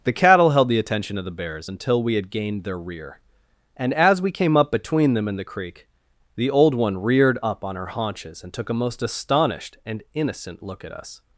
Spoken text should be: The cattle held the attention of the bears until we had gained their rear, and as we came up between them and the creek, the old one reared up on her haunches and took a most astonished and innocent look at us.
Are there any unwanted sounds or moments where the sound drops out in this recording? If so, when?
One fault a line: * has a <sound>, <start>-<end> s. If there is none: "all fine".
all fine